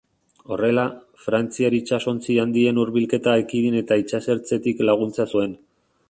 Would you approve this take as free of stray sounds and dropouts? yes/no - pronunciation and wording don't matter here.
yes